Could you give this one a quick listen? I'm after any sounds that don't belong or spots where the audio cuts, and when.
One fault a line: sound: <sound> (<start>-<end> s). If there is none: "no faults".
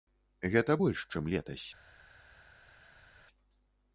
no faults